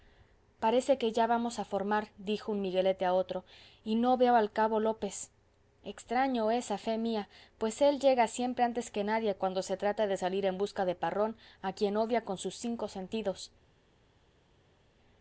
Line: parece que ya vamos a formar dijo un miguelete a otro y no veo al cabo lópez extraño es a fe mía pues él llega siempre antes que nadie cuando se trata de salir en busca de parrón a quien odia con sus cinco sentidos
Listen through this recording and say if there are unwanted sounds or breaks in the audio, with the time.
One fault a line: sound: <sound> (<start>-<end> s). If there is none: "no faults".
no faults